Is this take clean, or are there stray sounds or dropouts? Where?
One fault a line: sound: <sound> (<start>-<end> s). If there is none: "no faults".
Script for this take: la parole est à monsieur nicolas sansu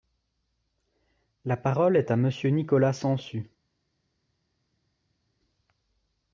no faults